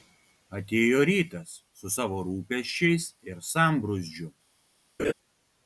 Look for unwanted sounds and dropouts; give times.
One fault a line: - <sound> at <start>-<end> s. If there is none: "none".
- laugh at 5.0-5.1 s